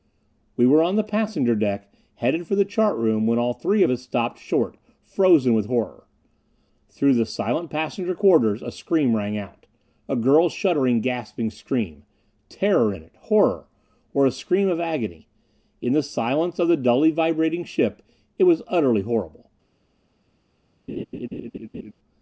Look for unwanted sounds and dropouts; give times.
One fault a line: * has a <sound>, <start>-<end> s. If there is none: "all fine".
* has a laugh, 20.9-21.9 s